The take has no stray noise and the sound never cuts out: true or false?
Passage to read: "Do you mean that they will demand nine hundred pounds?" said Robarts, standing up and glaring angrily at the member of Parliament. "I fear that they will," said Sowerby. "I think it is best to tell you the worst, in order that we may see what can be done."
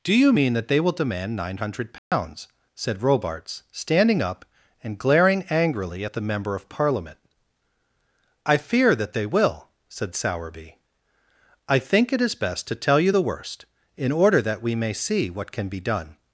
false